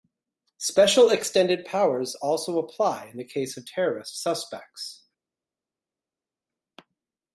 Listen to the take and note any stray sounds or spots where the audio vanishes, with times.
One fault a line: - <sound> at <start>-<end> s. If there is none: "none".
none